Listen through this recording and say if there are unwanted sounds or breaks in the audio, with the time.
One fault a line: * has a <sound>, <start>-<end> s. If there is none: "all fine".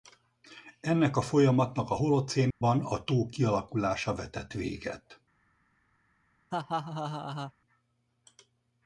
* has a dropout, 2.5-2.6 s
* has a laugh, 6.5-7.5 s